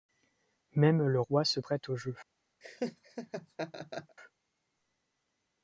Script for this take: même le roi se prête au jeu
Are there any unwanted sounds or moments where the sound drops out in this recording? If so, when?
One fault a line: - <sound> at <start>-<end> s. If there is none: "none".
- laugh at 2.6-4.2 s